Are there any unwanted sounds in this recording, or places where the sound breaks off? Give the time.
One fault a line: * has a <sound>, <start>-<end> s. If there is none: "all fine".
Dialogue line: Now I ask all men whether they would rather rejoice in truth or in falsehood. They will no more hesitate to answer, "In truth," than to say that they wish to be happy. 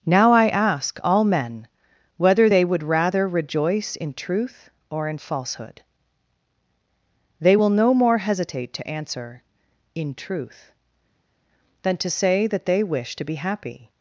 all fine